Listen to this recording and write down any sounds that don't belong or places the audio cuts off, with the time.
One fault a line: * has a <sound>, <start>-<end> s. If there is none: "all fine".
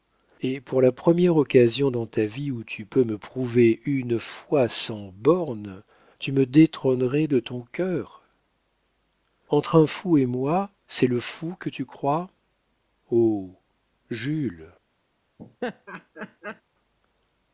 * has a laugh, 15.4-16.6 s